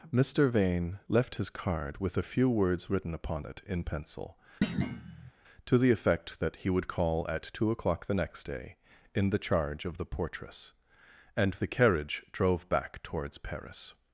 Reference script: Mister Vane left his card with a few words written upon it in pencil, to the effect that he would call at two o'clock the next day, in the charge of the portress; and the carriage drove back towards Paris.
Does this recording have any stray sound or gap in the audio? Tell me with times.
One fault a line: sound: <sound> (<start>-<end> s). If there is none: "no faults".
sound: thud (4.6-5.3 s)